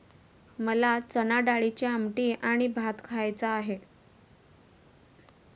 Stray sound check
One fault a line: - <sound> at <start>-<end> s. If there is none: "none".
none